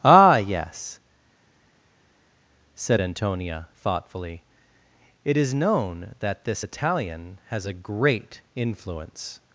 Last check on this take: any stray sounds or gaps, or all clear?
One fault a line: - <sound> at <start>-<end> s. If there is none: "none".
none